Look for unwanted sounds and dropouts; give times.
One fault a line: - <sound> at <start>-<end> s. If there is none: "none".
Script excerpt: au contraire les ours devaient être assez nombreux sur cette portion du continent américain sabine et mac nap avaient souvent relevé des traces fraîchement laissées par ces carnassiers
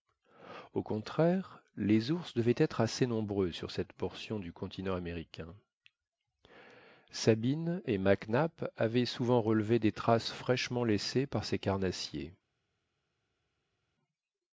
none